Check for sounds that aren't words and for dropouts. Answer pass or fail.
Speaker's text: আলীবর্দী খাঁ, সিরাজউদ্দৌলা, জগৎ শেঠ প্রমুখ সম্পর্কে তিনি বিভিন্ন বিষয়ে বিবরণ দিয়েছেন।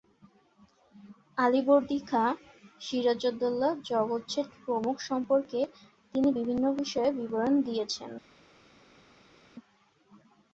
pass